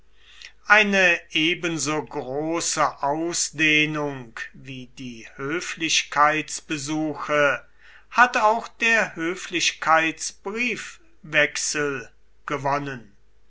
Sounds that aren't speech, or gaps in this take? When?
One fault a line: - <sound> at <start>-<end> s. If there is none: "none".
none